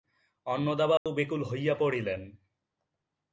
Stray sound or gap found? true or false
true